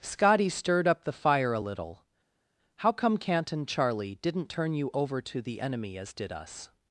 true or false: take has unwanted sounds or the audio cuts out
false